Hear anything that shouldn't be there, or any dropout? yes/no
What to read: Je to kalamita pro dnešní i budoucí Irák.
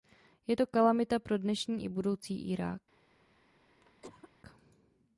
yes